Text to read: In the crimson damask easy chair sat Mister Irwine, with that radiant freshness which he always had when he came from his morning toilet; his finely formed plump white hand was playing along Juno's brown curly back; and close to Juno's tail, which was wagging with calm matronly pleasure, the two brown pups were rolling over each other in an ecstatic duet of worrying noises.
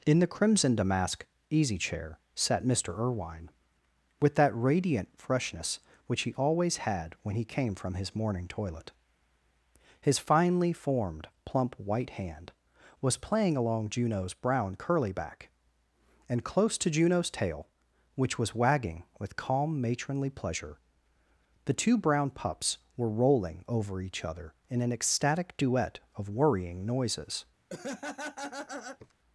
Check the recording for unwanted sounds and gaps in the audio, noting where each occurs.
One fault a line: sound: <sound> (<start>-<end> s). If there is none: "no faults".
sound: laugh (27.7-29.1 s)